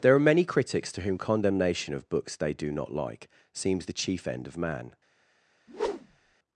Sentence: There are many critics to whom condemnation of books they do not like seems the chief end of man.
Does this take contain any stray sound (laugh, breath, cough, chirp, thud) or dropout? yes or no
yes